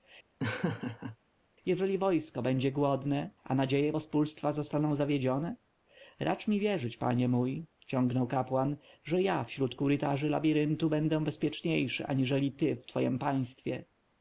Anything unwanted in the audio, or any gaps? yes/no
yes